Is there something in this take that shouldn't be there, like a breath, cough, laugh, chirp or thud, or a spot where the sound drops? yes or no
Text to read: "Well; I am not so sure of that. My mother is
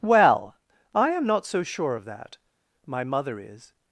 no